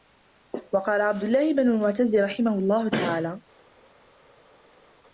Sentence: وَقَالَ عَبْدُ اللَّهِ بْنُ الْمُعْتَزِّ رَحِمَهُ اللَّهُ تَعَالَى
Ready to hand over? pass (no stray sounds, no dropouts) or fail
pass